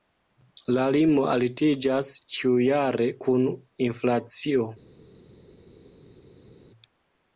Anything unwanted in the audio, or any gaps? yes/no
no